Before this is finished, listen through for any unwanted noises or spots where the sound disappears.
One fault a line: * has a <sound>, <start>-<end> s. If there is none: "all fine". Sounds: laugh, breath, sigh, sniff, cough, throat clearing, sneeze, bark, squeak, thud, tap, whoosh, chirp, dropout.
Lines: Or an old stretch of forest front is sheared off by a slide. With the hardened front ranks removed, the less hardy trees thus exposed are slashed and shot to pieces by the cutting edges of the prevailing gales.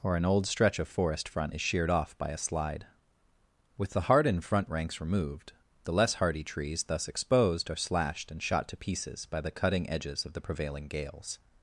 all fine